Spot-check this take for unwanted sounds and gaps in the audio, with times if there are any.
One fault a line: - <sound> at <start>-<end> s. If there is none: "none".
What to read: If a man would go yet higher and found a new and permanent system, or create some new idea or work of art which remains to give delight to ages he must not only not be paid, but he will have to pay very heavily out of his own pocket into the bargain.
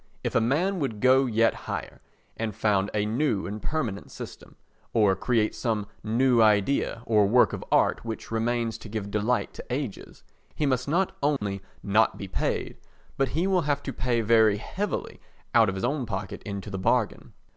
- dropout at 11.4-11.4 s